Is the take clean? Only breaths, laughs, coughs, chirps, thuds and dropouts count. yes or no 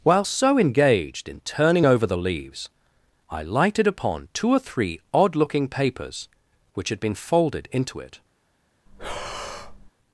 no